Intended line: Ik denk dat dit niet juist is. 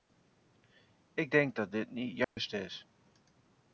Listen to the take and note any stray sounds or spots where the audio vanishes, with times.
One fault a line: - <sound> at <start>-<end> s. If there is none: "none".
- dropout at 2.2-2.4 s